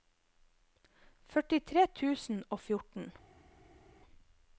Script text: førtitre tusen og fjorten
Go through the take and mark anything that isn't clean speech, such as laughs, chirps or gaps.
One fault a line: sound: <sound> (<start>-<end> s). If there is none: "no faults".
no faults